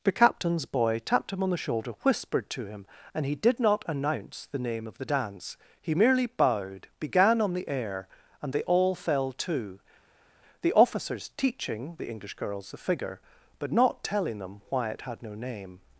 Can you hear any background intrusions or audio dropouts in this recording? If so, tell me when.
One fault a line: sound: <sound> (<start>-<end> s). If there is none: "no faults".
no faults